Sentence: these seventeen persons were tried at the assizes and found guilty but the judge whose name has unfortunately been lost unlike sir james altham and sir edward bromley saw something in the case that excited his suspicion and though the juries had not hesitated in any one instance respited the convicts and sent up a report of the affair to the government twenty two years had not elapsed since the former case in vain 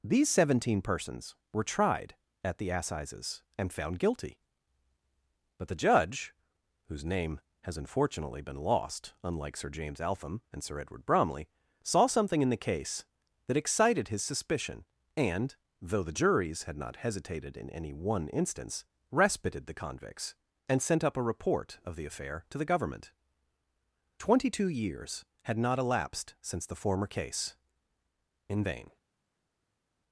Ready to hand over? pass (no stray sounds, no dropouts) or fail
pass